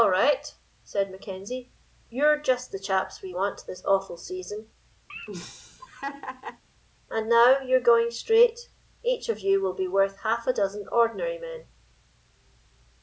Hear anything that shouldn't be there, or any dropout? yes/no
yes